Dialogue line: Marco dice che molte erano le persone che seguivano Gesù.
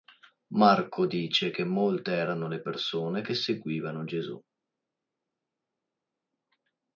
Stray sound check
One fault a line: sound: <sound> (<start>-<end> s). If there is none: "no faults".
no faults